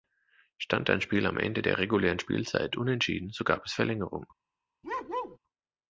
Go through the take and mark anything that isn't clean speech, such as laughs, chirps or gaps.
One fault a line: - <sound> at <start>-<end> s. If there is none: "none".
- bark at 4.8-5.4 s